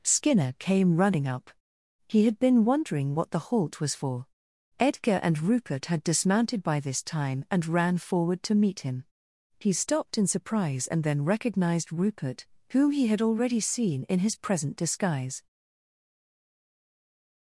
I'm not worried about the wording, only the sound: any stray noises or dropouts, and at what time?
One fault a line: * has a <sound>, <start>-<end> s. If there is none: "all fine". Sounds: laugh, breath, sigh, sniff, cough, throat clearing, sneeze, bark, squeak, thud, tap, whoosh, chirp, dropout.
all fine